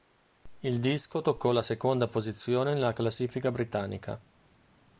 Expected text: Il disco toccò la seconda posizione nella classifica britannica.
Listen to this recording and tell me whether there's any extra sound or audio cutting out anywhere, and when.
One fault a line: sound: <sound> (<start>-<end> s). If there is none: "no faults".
no faults